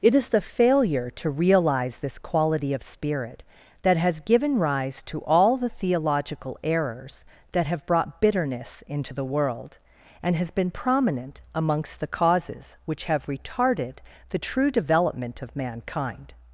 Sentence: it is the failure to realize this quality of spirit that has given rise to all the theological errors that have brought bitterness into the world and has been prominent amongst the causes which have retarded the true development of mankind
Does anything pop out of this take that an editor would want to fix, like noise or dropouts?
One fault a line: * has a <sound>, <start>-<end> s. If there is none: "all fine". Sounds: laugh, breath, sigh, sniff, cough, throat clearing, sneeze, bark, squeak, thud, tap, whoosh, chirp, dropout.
all fine